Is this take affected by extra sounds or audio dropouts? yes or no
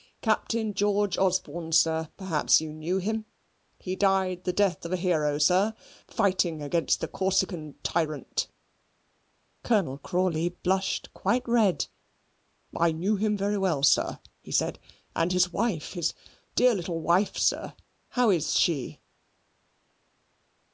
no